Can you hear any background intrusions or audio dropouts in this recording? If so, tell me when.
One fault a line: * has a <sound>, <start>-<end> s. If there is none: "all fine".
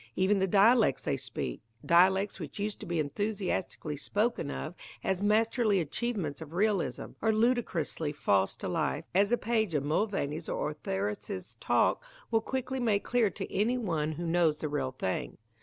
all fine